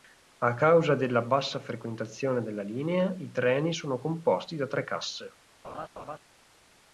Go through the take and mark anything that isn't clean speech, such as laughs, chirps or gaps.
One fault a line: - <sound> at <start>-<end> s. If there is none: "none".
- laugh at 5.6-6.2 s